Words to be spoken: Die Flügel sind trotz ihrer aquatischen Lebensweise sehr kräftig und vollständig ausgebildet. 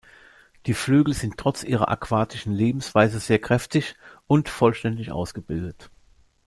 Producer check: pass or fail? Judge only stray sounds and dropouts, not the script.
pass